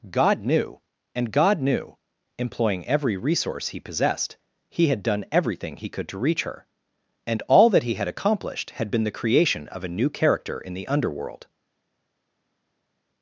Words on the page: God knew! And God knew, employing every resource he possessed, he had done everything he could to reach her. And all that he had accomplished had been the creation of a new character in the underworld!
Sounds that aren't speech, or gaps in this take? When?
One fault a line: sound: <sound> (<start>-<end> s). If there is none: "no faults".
no faults